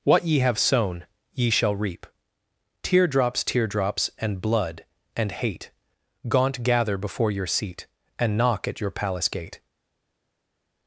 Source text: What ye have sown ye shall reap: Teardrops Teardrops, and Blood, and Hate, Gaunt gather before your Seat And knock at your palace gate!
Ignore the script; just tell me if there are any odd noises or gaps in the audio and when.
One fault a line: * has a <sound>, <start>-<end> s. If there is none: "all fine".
all fine